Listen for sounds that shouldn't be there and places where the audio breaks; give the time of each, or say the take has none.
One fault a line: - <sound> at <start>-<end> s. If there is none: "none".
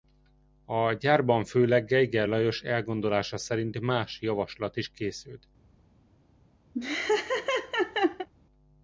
- laugh at 6.7-8.3 s